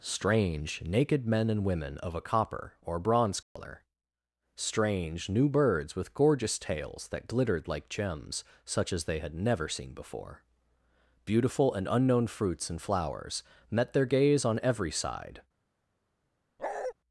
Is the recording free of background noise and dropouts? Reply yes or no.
no